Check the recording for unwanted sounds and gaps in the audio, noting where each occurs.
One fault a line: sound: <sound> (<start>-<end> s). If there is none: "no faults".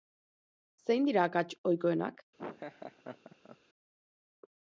sound: laugh (2.4-3.6 s)